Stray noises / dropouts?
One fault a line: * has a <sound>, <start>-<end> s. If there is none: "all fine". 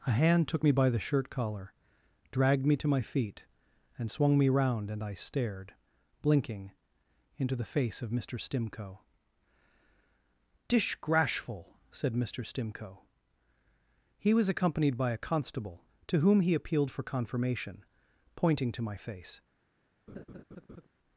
* has a laugh, 20.1-20.9 s